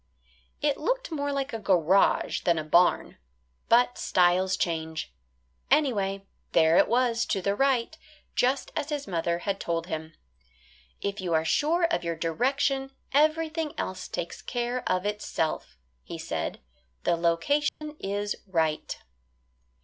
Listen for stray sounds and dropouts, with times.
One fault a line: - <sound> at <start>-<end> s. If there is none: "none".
- dropout at 17.7-17.8 s